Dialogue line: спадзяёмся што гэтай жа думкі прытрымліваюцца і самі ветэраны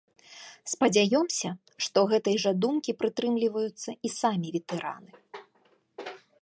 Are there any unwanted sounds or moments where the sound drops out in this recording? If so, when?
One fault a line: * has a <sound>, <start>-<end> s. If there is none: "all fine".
all fine